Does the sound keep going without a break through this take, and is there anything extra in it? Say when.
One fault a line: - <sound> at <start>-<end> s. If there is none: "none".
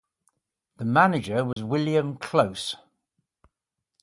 - dropout at 1.5-1.6 s